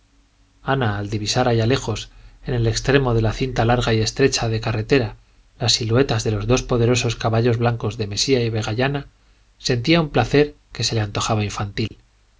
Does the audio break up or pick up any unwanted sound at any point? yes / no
yes